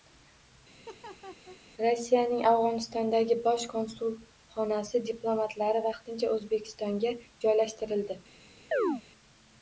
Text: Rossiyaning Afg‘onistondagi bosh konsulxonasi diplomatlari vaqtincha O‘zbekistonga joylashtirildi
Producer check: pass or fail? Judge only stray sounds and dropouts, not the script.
fail